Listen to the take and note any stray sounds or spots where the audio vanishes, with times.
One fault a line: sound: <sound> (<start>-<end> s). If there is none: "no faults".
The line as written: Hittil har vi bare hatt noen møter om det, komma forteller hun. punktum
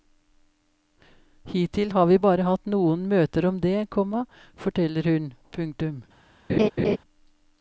sound: laugh (6.5-7.0 s)